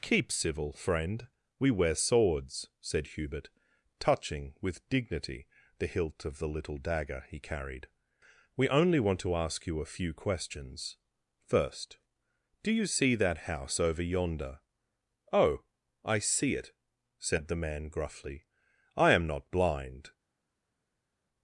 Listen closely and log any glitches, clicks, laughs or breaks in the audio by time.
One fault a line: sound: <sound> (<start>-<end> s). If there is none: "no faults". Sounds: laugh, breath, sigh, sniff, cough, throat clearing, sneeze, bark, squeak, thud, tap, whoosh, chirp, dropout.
no faults